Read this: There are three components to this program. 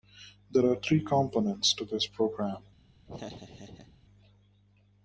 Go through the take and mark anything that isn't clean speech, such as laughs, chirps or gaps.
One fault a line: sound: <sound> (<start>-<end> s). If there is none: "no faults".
sound: laugh (3.1-4.0 s)